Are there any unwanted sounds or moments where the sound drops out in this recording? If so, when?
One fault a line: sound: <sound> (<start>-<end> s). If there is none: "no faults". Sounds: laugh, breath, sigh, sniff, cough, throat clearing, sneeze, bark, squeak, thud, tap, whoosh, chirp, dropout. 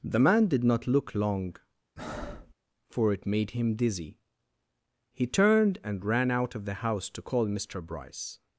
sound: breath (2.0-2.5 s)